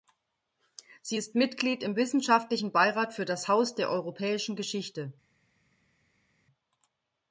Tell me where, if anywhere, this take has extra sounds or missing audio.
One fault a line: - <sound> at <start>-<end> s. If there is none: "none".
none